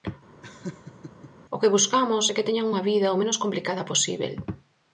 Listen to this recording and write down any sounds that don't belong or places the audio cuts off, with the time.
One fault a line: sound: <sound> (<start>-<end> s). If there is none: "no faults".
sound: laugh (0.4-1.3 s)